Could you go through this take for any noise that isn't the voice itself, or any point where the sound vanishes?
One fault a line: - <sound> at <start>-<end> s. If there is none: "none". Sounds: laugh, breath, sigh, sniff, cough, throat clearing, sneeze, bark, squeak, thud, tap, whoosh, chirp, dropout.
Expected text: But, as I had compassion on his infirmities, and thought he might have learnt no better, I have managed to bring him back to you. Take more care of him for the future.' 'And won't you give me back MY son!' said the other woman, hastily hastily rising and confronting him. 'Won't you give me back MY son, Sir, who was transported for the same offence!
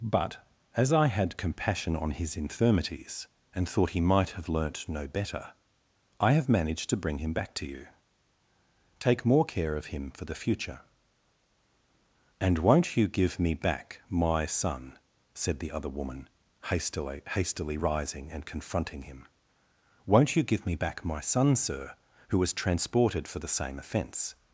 none